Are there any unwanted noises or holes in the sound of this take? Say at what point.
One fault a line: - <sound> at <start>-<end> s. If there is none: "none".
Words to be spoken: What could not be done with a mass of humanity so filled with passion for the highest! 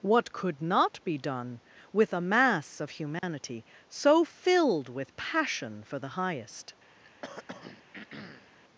- dropout at 3.2-3.2 s
- throat clearing at 7.0-8.5 s